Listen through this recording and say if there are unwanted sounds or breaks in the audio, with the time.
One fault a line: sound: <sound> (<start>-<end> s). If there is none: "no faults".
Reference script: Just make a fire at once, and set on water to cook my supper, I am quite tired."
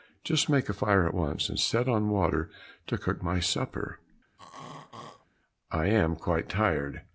sound: throat clearing (4.4-5.3 s)